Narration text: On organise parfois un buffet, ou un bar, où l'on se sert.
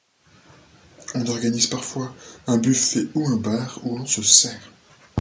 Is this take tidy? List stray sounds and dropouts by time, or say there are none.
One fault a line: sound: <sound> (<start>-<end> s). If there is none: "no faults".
no faults